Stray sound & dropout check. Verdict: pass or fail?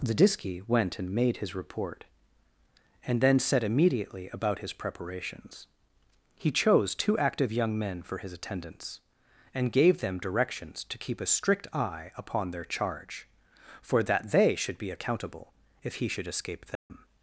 fail